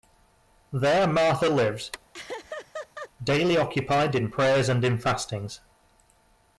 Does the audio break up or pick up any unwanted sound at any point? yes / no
yes